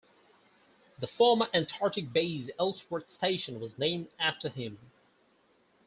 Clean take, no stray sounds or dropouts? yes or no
yes